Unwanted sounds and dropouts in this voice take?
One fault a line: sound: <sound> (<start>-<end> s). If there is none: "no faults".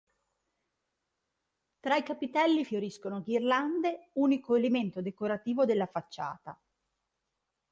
no faults